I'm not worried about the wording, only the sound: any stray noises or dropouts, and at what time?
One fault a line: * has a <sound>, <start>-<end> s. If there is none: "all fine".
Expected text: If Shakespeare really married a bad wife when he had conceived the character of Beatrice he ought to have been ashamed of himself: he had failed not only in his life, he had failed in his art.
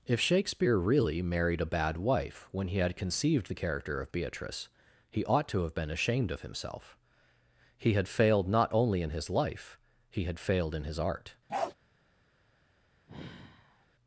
* has a bark, 11.5-11.7 s
* has a sigh, 13.1-13.9 s